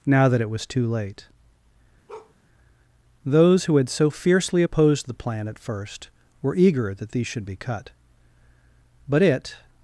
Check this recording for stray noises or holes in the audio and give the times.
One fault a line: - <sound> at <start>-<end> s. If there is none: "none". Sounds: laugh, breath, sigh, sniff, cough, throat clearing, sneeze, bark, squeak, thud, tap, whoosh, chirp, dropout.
- bark at 2.1-2.3 s